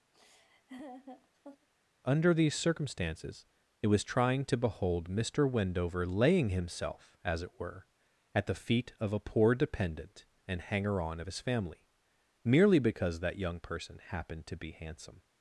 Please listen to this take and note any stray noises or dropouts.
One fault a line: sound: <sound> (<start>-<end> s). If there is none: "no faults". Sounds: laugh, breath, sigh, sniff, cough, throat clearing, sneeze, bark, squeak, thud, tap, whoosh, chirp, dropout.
sound: laugh (0.1-1.7 s)